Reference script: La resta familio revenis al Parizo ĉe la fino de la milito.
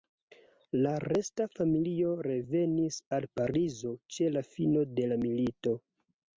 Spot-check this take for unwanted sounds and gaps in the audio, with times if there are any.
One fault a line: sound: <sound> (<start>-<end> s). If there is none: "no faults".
no faults